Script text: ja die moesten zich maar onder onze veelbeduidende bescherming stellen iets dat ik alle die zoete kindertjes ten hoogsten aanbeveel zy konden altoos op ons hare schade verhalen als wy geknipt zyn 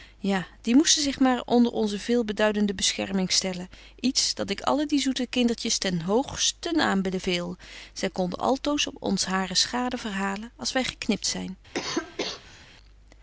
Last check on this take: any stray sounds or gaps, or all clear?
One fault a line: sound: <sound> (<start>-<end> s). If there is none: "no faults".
sound: cough (11.7-12.7 s)